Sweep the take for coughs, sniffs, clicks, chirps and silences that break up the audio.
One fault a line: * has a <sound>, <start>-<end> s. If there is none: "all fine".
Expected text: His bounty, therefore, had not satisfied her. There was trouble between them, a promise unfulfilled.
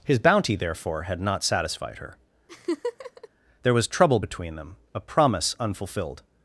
* has a laugh, 2.5-3.3 s